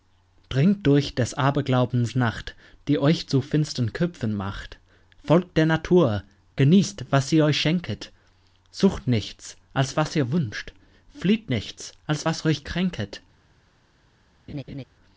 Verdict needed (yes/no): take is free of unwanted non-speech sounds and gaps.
no